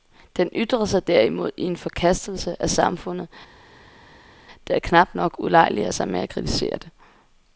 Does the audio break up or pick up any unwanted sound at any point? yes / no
no